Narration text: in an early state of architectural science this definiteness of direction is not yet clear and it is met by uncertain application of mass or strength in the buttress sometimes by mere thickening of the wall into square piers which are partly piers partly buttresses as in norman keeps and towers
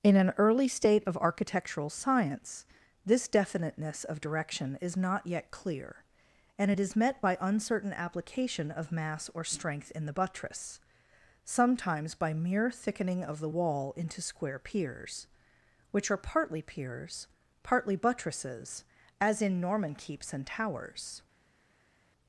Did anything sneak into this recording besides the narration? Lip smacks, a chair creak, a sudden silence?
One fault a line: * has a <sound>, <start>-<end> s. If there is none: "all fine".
all fine